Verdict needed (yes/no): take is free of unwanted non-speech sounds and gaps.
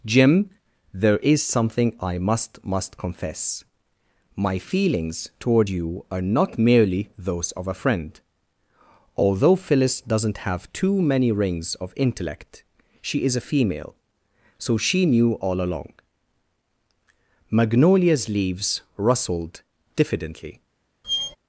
no